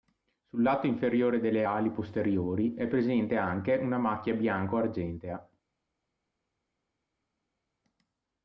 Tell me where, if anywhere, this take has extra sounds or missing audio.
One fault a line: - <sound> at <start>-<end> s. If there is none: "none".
none